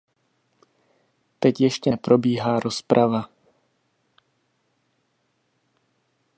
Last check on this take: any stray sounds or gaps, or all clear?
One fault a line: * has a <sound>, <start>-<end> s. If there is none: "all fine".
all fine